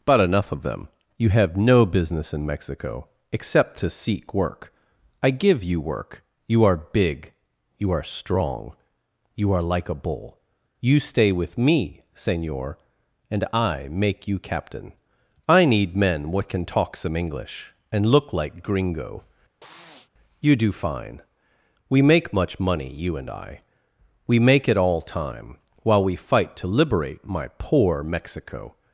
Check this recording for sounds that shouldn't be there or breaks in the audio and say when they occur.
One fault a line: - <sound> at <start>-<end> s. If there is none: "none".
- sniff at 19.6-20.1 s